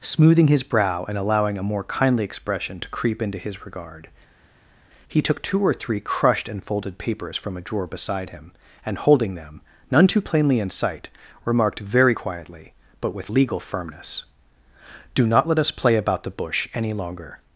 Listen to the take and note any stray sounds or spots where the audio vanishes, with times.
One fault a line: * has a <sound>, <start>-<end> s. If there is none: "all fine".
all fine